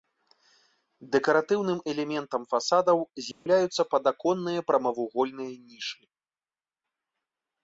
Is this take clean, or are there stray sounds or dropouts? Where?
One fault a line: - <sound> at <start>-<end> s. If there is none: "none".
- dropout at 3.3-3.5 s